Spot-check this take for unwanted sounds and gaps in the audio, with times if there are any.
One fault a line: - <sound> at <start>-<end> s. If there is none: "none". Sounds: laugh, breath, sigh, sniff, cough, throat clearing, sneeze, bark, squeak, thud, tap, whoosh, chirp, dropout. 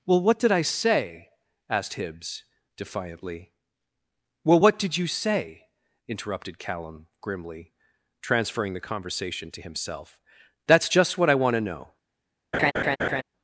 - laugh at 12.5-13.2 s